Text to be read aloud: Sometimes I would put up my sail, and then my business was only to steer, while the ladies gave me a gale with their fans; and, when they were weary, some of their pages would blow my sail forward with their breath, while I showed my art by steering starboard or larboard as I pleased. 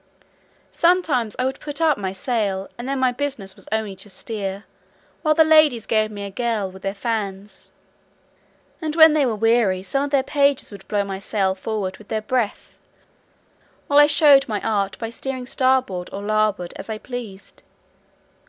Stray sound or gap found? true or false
false